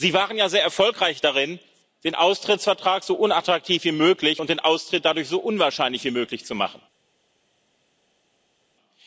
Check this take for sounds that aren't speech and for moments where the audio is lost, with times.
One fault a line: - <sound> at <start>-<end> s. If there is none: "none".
none